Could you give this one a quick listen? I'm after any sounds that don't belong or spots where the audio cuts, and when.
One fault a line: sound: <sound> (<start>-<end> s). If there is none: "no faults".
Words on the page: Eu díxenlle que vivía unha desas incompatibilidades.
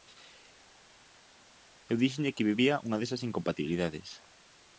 no faults